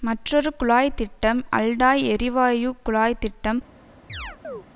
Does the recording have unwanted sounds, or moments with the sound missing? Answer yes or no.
yes